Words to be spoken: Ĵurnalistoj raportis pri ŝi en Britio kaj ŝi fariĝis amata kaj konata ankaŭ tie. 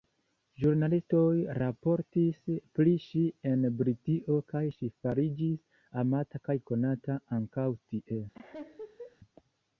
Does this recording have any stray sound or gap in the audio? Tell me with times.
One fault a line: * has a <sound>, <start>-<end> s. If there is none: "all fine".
* has a laugh, 8.3-9.2 s